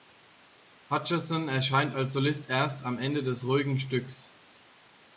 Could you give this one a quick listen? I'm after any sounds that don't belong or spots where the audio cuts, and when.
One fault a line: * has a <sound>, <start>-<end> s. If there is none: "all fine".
all fine